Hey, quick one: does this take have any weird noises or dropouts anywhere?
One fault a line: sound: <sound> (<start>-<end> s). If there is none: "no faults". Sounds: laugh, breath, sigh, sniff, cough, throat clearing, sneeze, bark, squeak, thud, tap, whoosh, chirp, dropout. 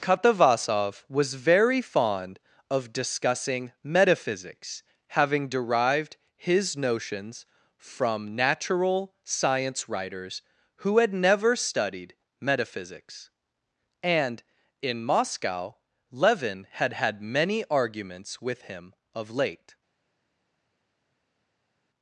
no faults